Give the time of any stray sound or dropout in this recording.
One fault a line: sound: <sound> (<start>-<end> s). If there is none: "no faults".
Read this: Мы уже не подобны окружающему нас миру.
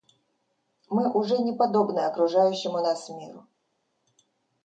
no faults